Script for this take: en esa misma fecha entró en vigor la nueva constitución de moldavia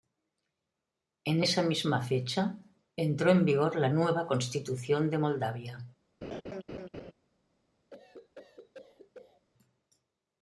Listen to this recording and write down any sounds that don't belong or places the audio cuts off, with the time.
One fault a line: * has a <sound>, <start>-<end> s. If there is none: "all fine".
* has a laugh, 6.2-7.1 s
* has a cough, 7.9-9.5 s